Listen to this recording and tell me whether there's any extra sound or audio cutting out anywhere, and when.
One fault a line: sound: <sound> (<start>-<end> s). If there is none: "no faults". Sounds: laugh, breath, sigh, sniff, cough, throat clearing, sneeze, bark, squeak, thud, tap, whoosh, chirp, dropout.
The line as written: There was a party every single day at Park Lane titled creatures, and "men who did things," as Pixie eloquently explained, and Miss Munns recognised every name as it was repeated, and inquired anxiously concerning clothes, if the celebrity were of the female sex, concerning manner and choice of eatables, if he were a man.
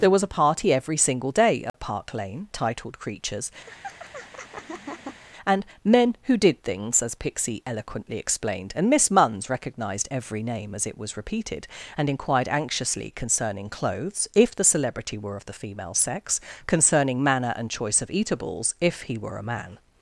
sound: dropout (1.7-1.7 s)
sound: laugh (3.7-5.2 s)